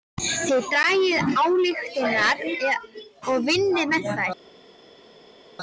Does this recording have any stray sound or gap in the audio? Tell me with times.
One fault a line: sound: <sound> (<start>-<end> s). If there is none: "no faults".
no faults